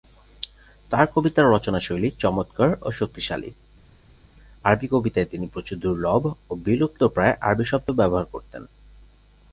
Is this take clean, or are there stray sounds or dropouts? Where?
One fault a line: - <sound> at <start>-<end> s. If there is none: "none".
none